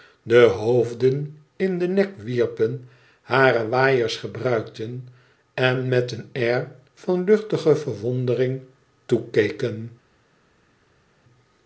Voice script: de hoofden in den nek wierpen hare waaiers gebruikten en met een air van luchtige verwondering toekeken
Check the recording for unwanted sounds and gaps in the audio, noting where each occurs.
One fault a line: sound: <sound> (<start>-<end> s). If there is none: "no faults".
no faults